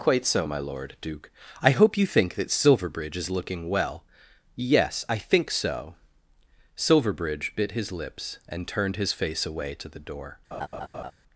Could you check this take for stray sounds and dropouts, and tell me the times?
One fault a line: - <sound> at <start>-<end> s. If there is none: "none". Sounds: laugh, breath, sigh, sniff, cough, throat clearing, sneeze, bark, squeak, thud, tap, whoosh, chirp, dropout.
- laugh at 10.5-11.1 s